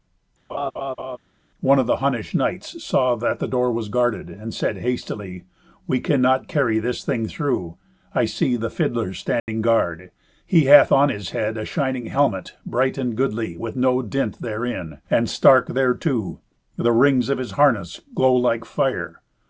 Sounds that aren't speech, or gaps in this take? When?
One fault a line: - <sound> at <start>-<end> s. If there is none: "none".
- laugh at 0.5-1.2 s
- dropout at 9.4-9.5 s